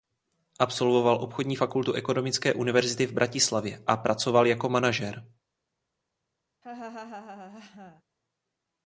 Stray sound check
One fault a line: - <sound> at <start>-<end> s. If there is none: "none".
- laugh at 6.6-8.0 s